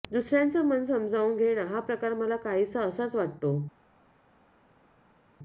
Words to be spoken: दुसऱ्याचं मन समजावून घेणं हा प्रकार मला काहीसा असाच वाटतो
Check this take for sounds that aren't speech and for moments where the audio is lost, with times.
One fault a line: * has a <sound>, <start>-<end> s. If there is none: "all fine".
all fine